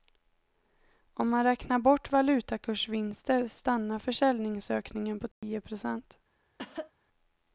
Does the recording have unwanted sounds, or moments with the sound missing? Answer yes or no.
yes